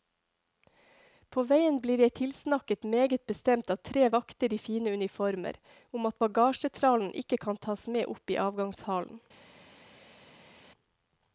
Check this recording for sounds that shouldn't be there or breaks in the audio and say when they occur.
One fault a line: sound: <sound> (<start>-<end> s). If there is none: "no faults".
no faults